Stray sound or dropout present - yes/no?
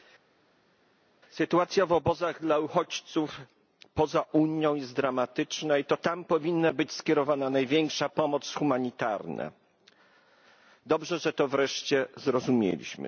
no